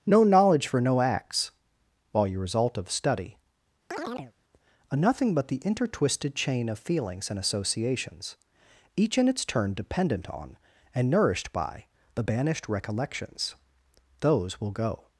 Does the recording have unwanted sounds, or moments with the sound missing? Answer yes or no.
yes